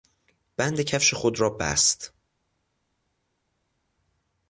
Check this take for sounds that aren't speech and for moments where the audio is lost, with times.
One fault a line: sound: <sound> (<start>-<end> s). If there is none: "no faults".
no faults